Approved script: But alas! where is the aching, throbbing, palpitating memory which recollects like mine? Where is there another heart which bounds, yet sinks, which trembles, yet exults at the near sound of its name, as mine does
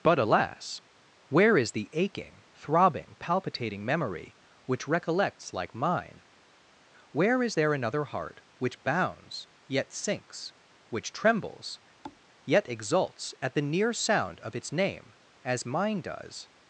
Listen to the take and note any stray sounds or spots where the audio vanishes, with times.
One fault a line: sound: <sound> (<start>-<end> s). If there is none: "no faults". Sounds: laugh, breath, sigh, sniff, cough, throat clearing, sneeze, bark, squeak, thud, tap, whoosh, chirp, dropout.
sound: thud (12.0-12.2 s)